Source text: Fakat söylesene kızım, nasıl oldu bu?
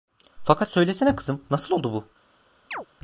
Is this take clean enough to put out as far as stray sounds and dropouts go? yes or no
no